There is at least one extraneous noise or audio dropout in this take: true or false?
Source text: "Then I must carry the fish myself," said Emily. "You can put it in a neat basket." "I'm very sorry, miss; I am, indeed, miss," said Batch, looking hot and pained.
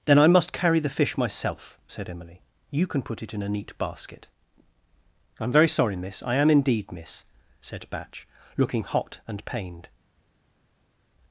false